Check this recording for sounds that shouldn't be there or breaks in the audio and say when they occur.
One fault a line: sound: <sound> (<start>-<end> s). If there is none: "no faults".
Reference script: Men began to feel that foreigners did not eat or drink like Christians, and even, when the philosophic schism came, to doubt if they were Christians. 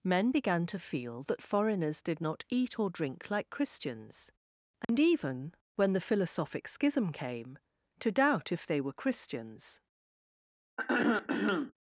sound: dropout (4.8-4.9 s)
sound: throat clearing (10.8-11.7 s)